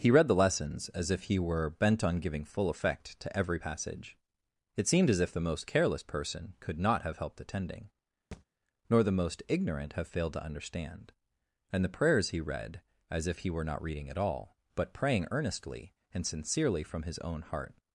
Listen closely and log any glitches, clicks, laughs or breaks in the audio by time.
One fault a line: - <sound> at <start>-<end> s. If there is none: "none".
- thud at 8.3-8.5 s